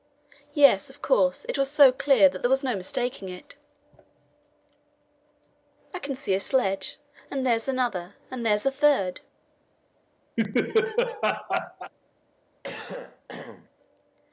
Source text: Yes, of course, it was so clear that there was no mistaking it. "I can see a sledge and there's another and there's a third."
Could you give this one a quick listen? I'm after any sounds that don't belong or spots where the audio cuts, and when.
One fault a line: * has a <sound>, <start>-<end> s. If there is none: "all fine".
* has a laugh, 10.4-11.9 s
* has a cough, 12.6-13.7 s